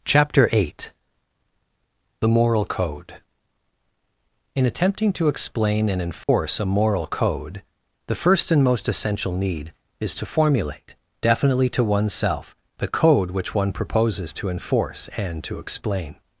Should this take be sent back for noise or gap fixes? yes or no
yes